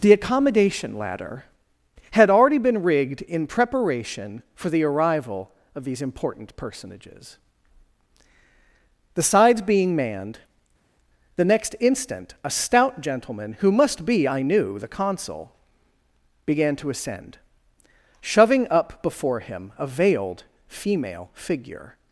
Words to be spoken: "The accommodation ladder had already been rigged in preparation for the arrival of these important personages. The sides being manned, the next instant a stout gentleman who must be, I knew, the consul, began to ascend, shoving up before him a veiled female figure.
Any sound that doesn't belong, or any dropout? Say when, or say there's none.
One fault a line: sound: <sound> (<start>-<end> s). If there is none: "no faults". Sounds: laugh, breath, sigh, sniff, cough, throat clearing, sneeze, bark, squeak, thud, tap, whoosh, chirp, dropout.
no faults